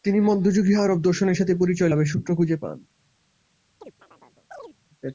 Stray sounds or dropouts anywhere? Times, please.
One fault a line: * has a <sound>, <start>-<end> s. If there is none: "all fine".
* has a chirp, 3.8-4.8 s